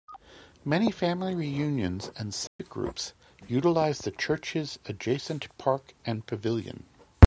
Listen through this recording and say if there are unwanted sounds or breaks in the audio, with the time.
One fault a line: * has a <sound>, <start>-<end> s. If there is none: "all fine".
* has a dropout, 2.5-2.6 s